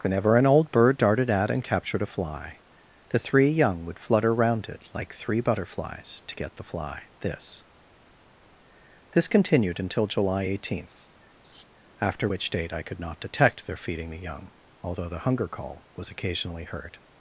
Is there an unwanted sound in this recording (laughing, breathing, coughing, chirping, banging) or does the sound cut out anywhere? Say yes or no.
yes